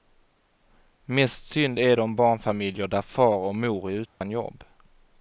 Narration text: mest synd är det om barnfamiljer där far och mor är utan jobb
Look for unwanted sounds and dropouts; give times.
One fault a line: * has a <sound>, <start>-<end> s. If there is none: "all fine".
* has a dropout, 4.1-4.2 s